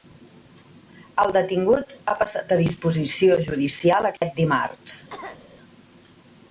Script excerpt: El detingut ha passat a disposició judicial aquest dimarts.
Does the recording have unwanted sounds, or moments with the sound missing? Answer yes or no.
yes